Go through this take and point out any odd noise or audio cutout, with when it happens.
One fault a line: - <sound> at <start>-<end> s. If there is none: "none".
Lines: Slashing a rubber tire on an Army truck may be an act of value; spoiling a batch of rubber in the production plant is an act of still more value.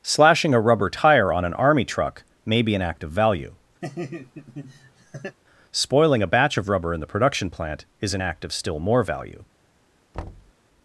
- laugh at 3.8-5.4 s
- thud at 10.1-10.5 s